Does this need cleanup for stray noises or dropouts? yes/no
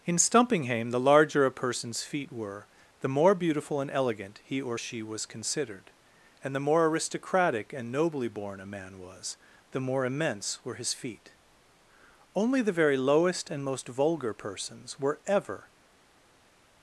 no